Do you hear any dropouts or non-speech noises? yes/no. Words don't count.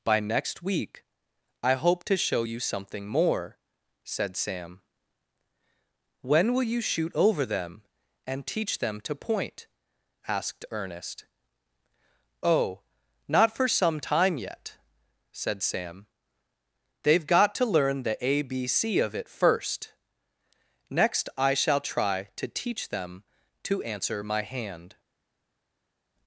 no